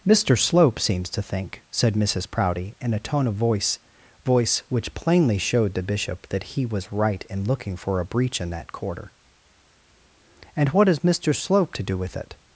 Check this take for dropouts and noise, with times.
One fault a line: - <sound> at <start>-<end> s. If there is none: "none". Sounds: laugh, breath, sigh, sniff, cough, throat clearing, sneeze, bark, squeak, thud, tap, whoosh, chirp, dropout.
none